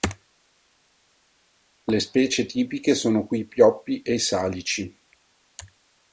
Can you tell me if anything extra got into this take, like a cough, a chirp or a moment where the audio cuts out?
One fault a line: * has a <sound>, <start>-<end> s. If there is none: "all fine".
all fine